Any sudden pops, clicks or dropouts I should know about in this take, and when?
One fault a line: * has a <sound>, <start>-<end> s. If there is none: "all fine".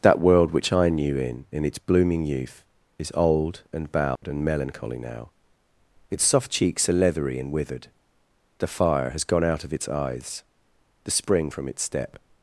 * has a dropout, 4.2-4.2 s